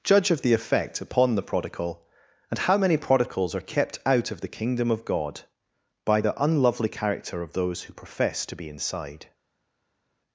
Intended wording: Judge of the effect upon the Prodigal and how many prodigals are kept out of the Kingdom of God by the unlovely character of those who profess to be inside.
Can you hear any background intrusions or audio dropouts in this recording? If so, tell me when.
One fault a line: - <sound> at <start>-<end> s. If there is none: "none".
none